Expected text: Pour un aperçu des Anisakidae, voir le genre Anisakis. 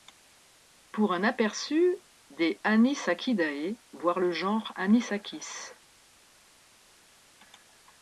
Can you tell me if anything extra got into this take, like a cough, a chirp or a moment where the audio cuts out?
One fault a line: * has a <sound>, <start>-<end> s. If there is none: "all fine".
all fine